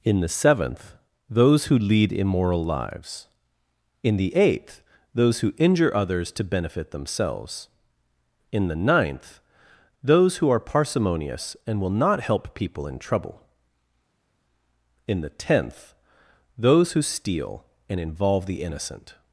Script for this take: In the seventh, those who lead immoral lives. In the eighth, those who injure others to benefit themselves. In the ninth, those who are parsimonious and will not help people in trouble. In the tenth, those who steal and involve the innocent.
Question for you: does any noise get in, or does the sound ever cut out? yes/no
no